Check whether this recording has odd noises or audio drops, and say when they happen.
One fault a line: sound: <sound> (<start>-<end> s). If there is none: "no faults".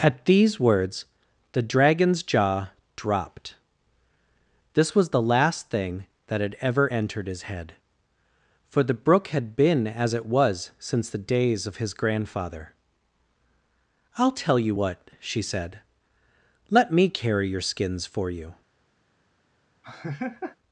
sound: laugh (19.8-20.6 s)